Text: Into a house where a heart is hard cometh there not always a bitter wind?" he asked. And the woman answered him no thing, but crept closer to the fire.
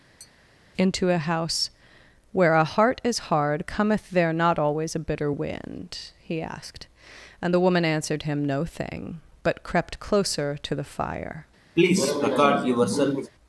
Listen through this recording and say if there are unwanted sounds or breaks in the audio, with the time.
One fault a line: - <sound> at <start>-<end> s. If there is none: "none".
- tap at 0.2-0.3 s
- cough at 11.8-13.3 s